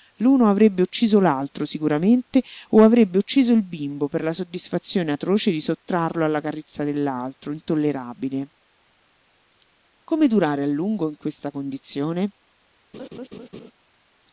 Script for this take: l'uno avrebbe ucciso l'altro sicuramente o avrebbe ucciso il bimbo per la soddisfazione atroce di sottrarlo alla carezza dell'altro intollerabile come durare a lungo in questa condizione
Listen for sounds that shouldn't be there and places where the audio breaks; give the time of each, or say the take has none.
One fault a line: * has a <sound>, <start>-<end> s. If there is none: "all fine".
* has a laugh, 12.9-13.7 s